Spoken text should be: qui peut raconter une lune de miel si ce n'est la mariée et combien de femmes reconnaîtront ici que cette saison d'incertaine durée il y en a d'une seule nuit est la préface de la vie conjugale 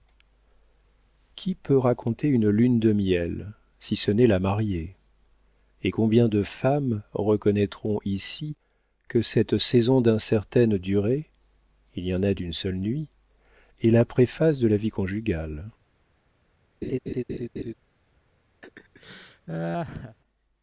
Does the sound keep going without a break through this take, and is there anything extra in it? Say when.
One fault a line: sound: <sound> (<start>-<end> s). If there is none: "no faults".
sound: laugh (16.8-17.7 s)
sound: laugh (18.6-20.2 s)